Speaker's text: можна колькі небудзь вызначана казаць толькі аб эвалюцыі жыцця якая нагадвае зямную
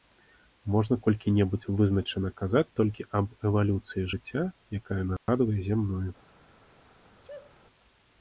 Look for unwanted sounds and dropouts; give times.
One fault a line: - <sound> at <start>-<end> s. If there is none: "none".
- dropout at 5.2-5.3 s
- sneeze at 7.2-7.5 s